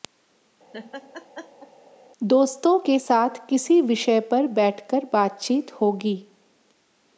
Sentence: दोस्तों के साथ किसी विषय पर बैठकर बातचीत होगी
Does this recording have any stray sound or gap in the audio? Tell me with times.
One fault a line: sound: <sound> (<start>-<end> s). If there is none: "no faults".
sound: laugh (0.7-1.7 s)